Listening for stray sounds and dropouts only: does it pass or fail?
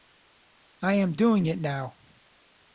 pass